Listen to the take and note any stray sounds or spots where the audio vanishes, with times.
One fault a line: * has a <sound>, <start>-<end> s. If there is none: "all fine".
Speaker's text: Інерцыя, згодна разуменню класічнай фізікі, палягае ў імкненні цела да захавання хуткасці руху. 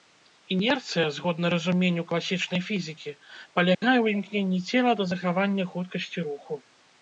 * has a dropout, 3.7-3.8 s